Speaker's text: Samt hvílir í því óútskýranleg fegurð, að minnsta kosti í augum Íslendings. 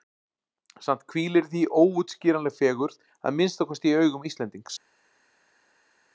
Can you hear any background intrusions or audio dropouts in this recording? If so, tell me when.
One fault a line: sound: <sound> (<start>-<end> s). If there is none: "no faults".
no faults